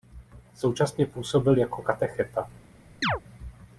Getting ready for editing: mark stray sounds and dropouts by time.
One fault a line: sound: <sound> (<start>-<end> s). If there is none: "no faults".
sound: chirp (3.0-3.2 s)